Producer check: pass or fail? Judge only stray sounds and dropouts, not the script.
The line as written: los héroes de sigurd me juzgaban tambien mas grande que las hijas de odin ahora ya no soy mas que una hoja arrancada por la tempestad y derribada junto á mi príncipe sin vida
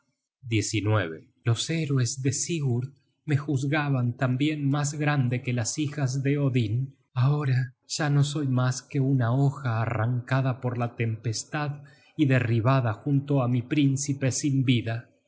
pass